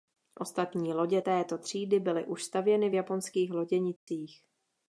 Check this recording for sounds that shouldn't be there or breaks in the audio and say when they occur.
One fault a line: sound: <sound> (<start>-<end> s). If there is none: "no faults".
sound: dropout (4.0-4.1 s)